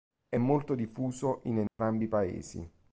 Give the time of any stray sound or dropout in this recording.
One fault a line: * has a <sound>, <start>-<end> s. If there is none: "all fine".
* has a dropout, 1.7-1.8 s